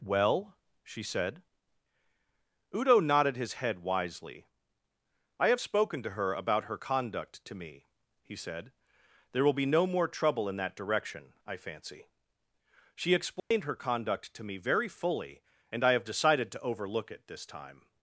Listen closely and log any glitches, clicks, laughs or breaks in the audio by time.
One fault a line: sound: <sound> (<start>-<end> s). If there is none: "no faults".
sound: dropout (13.4-13.5 s)